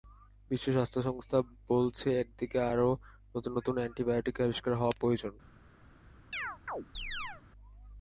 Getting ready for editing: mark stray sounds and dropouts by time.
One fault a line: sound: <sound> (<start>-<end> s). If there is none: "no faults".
sound: chirp (6.3-7.4 s)